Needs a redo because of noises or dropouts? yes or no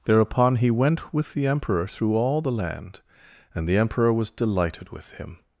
no